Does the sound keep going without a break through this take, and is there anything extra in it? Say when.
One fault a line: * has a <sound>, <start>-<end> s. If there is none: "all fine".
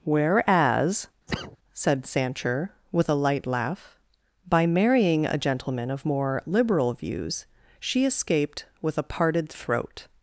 * has a cough, 1.3-1.6 s